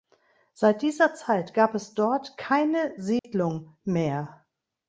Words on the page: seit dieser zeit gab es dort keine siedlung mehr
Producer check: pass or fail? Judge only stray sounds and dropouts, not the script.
fail